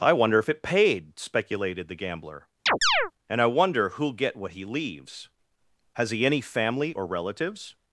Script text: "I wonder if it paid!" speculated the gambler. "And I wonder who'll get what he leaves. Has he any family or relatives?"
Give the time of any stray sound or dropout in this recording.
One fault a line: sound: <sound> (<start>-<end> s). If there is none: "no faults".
sound: chirp (2.7-3.1 s)